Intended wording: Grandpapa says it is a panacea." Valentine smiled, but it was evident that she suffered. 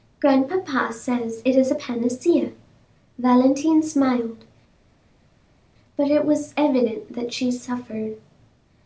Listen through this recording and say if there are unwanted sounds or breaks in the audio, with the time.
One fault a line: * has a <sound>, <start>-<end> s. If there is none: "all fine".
all fine